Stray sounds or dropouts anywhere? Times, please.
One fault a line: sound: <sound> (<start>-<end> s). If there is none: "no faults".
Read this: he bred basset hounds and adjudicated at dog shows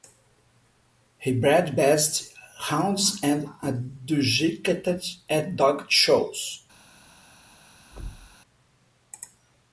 sound: thud (7.9-8.4 s)